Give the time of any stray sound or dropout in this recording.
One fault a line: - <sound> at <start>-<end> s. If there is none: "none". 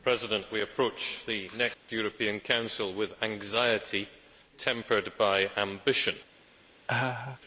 - dropout at 1.7-1.9 s
- laugh at 6.9-7.4 s